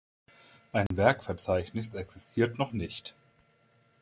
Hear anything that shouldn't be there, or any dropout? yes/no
yes